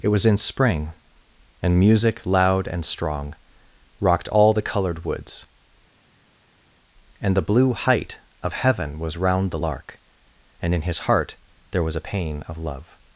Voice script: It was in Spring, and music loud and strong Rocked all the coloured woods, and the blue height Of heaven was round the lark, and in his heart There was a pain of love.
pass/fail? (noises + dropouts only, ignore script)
pass